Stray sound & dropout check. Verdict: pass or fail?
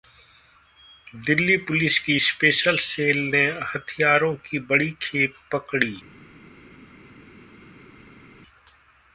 pass